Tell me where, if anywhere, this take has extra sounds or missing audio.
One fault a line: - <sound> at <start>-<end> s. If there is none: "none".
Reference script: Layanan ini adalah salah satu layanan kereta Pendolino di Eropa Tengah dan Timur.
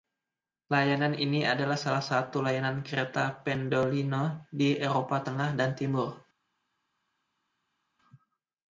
none